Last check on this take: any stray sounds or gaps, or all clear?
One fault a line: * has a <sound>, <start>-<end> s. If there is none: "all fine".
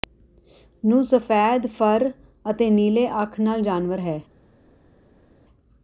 all fine